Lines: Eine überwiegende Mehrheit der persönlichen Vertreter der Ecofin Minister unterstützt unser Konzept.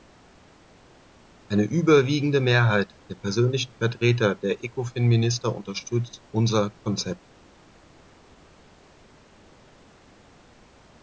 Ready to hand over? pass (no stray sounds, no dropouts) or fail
pass